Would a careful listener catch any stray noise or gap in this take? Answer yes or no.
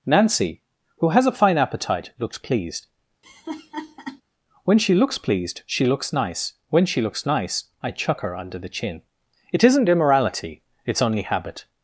yes